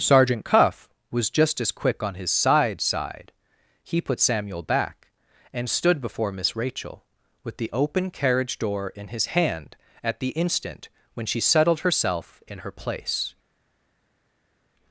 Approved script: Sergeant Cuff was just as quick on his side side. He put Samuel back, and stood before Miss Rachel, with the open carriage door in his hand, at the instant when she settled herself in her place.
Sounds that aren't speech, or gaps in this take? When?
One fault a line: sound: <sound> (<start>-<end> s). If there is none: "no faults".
no faults